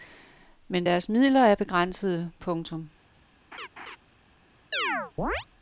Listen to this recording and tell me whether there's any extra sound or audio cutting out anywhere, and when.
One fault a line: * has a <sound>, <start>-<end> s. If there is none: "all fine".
* has a laugh, 3.5-4.0 s
* has a chirp, 4.7-5.5 s